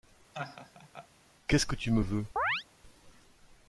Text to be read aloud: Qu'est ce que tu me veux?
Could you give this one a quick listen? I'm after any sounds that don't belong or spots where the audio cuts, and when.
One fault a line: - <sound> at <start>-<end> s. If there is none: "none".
- laugh at 0.3-1.1 s
- chirp at 2.4-2.6 s